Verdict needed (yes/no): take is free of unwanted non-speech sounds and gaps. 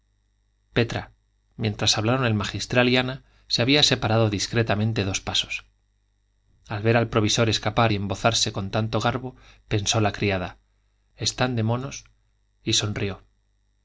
yes